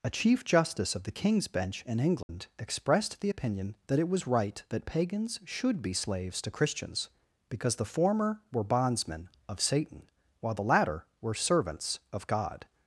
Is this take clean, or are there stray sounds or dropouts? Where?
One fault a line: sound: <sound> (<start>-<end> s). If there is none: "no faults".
sound: dropout (2.2-2.3 s)